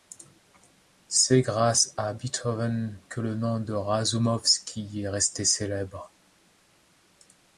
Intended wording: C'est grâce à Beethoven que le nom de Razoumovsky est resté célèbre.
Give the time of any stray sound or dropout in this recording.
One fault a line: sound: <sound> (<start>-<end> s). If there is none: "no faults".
no faults